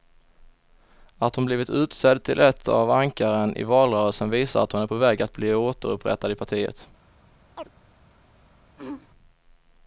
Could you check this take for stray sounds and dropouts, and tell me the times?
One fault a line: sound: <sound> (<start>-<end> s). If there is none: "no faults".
sound: chirp (7.6-7.7 s)
sound: throat clearing (8.8-9.1 s)